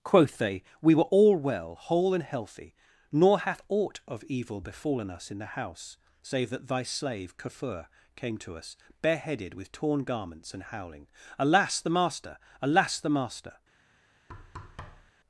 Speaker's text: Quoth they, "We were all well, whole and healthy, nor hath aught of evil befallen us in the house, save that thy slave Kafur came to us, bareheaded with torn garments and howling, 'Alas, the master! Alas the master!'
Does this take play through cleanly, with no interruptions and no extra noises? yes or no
no